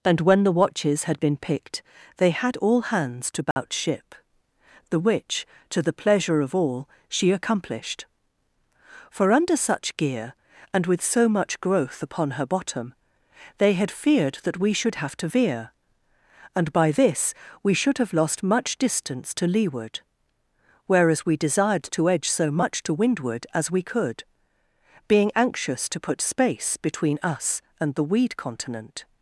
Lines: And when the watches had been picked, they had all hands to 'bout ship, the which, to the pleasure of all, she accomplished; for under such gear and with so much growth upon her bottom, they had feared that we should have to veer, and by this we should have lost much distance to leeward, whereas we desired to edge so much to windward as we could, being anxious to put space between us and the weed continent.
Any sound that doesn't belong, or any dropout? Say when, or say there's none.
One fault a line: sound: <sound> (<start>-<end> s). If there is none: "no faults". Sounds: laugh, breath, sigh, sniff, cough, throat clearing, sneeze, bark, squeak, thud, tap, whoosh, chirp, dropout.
sound: dropout (3.5-3.6 s)